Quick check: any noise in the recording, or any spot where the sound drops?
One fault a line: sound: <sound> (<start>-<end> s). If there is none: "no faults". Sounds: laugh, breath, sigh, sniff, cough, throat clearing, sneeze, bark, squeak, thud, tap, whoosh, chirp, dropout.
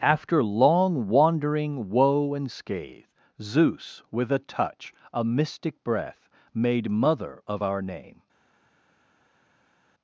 no faults